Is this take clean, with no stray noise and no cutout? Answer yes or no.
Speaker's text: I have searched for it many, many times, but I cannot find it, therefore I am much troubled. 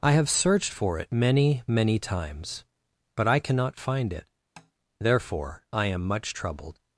no